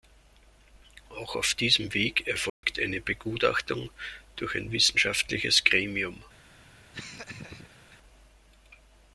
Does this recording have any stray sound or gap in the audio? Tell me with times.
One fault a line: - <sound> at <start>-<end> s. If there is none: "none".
- dropout at 2.5-2.6 s
- laugh at 6.9-8.0 s